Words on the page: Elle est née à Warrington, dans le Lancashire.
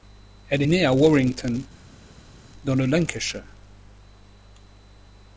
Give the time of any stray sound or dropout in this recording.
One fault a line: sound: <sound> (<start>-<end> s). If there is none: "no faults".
no faults